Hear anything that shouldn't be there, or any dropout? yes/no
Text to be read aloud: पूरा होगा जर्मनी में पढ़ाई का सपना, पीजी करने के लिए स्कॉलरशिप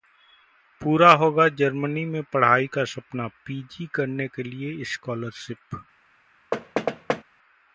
yes